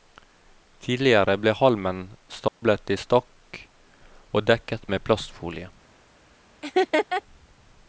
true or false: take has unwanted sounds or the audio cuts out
true